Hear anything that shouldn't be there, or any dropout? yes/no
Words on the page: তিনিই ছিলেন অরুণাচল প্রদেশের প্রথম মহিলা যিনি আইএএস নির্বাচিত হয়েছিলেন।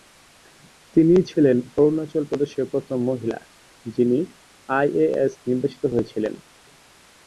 no